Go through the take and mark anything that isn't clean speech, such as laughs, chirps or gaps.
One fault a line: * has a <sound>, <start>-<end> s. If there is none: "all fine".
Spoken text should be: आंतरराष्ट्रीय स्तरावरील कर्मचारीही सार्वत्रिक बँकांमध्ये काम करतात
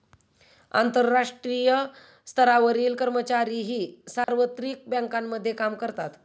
* has a dropout, 4.2-4.3 s